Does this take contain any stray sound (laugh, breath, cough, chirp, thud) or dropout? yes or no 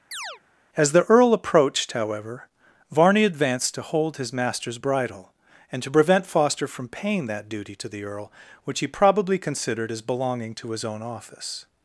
yes